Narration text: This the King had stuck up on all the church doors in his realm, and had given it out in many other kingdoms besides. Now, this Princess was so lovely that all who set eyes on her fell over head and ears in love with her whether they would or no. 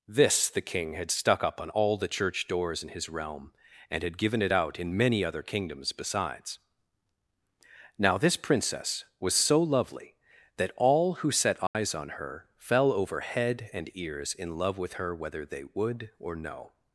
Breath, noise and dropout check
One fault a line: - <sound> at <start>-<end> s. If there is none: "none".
- dropout at 11.7-11.7 s